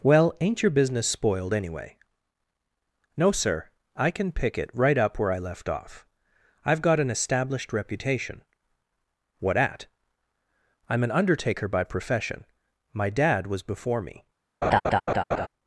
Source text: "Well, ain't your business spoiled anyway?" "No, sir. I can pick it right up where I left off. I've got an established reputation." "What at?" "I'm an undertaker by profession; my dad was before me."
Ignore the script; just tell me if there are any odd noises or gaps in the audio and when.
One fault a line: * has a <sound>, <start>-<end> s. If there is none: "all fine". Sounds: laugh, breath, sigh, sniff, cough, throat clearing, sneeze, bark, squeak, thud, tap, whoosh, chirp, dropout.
* has a laugh, 14.6-15.5 s